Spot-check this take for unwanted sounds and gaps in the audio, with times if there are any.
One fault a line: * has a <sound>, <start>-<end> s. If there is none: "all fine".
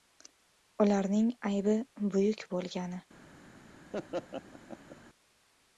* has a laugh, 3.9-5.0 s